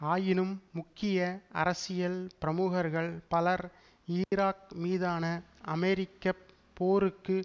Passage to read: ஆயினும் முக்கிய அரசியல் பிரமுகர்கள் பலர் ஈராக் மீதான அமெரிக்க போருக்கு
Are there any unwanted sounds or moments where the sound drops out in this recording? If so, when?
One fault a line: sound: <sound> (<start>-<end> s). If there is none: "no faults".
sound: dropout (4.2-4.3 s)